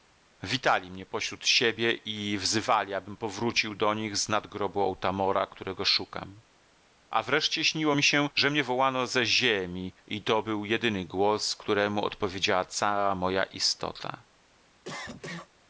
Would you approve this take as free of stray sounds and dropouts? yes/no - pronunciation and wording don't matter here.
no